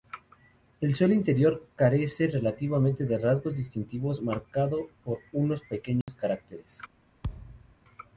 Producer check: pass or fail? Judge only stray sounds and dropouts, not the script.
fail